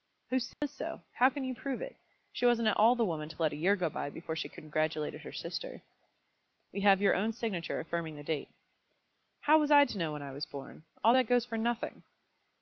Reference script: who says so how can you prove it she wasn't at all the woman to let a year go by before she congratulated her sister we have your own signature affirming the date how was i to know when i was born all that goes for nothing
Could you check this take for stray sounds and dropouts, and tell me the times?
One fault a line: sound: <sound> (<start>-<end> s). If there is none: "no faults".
sound: dropout (0.5-0.6 s)